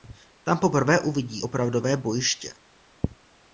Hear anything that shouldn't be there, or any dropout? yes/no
no